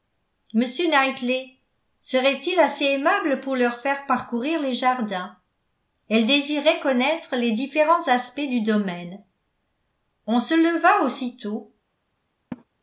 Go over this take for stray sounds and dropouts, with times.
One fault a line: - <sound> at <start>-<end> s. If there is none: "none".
- laugh at 12.5-12.6 s